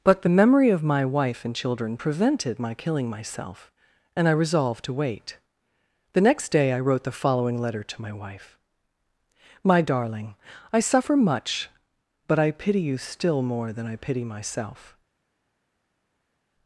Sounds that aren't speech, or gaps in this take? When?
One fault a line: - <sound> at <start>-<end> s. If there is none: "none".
none